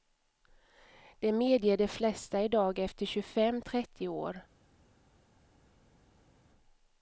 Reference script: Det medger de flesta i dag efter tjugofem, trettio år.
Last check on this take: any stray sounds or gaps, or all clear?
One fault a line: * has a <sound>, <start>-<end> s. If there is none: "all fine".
all fine